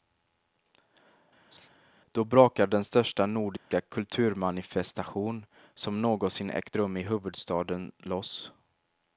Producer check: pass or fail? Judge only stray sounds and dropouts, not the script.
fail